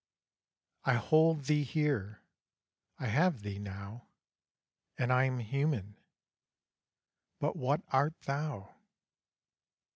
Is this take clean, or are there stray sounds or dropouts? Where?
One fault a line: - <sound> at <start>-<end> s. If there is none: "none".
none